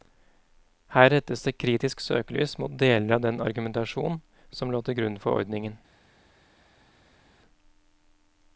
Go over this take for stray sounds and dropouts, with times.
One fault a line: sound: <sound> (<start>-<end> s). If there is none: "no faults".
no faults